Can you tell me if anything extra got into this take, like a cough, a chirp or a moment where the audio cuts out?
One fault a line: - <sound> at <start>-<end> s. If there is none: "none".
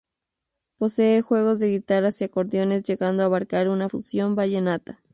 none